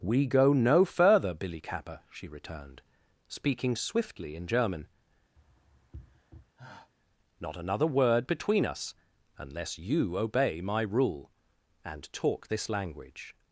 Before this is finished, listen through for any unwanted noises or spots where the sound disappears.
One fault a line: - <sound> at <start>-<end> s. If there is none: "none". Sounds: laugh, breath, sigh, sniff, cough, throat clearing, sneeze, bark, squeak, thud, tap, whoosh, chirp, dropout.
- sigh at 5.3-6.9 s